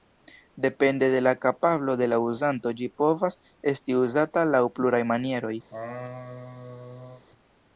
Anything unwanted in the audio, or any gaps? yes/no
yes